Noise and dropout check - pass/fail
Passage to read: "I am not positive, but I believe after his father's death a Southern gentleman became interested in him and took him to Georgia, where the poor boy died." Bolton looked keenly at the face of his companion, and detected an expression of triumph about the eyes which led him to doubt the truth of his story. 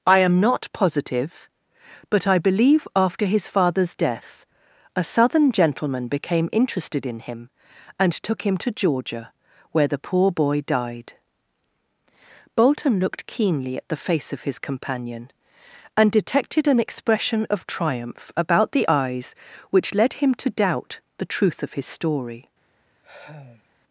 fail